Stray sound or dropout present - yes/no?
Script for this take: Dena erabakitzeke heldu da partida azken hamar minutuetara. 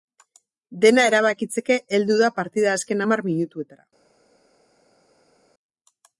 no